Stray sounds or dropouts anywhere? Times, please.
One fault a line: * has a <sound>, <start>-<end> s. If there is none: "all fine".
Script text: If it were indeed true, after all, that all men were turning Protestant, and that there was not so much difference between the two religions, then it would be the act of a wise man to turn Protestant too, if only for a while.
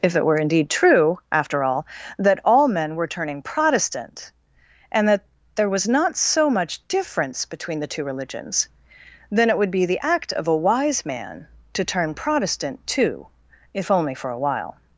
all fine